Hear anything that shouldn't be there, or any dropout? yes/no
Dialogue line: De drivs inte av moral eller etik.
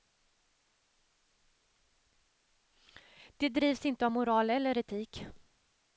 no